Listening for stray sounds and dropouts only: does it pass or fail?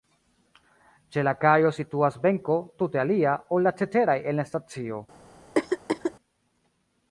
fail